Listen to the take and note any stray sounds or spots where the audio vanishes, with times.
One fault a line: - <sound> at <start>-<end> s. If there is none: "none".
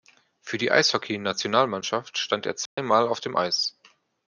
- dropout at 2.7-2.8 s